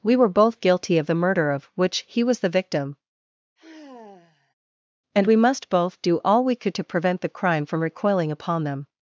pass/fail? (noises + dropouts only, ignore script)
fail